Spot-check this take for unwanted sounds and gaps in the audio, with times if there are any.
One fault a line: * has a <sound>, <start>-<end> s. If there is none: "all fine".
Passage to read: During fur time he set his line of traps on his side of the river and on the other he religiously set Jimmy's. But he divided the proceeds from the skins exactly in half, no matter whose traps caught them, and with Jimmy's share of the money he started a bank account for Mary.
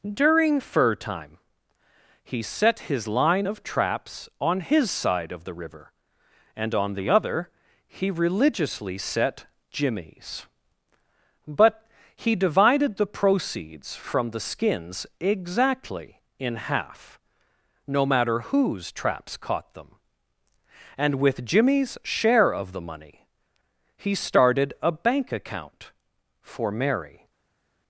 all fine